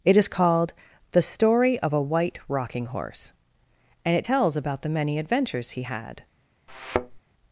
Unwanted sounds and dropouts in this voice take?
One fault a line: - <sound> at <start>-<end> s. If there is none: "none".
- thud at 6.7-7.2 s